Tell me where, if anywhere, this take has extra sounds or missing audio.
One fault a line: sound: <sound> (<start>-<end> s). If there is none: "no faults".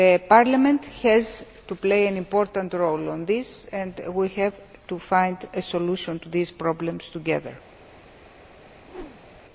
sound: whoosh (8.8-9.4 s)